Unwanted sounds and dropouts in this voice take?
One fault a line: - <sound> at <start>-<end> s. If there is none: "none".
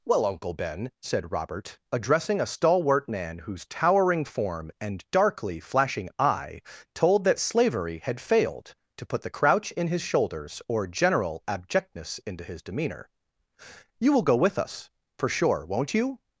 none